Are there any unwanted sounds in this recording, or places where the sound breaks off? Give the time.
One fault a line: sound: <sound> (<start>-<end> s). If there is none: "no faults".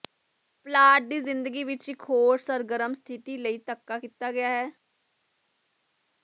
no faults